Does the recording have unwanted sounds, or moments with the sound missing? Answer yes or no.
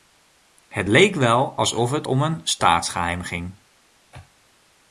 no